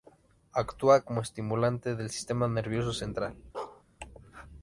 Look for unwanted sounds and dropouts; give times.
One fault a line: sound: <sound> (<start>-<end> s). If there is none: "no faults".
sound: bark (3.5-3.8 s)